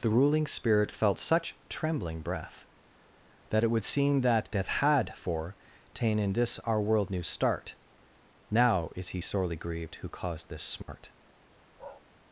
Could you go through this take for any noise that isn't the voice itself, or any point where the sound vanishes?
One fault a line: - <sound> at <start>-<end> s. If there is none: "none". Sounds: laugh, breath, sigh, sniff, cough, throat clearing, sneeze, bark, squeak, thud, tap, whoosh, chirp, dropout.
- dropout at 10.8-10.9 s
- bark at 11.8-12.0 s